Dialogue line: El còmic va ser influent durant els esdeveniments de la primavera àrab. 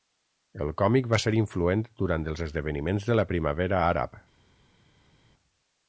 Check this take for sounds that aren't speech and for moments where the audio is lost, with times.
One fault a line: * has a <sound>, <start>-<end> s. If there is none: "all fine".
all fine